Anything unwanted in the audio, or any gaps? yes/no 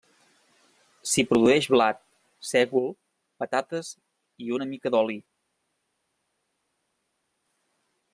no